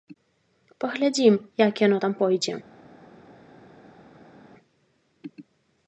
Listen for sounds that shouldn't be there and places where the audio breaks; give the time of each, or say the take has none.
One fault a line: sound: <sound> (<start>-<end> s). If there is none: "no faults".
no faults